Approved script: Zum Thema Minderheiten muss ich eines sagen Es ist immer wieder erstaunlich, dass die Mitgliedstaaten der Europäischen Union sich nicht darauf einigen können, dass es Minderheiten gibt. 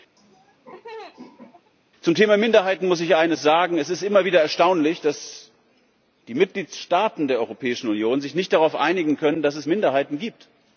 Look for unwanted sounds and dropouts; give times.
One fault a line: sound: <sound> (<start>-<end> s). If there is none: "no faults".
sound: laugh (0.2-1.7 s)